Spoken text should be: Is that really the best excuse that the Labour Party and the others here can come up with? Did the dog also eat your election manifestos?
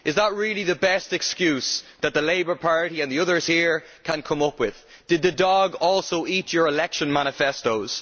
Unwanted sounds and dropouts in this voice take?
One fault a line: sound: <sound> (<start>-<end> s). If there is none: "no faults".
no faults